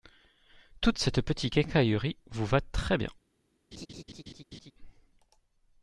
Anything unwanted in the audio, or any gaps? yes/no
yes